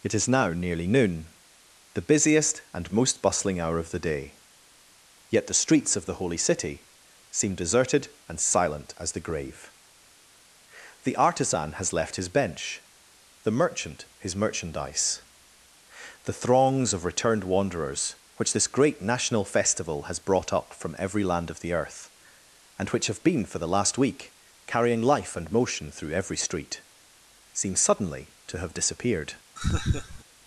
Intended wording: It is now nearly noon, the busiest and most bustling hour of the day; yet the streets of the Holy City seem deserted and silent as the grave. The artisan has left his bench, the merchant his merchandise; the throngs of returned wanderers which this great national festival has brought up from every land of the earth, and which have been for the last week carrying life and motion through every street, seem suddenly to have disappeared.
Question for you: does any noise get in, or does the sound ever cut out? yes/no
yes